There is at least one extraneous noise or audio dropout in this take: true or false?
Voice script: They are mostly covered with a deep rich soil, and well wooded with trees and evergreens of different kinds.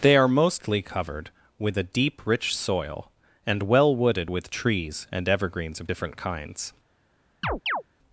true